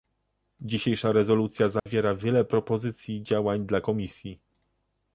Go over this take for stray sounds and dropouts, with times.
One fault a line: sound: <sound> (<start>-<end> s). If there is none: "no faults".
sound: dropout (1.8-1.9 s)